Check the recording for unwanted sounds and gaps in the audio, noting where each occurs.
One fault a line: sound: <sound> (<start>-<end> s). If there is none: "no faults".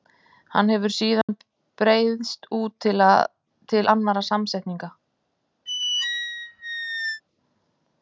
sound: dropout (1.2-1.3 s)
sound: squeak (5.7-7.2 s)